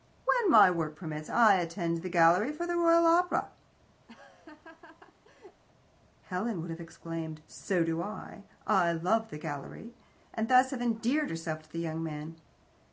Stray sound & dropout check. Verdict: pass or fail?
fail